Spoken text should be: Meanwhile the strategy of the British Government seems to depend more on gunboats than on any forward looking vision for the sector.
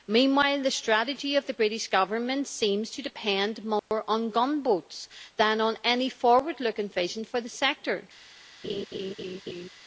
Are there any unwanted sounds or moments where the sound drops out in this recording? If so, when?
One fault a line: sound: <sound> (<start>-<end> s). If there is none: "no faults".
sound: dropout (3.8-3.9 s)
sound: laugh (8.6-9.7 s)